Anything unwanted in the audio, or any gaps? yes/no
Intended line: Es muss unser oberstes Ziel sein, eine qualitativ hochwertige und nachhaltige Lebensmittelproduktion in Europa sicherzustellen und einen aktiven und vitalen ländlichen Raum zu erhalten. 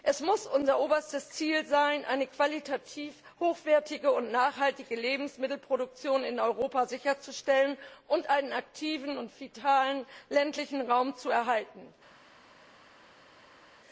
no